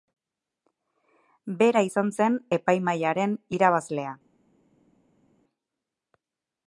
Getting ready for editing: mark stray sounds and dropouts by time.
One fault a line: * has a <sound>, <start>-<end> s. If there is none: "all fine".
all fine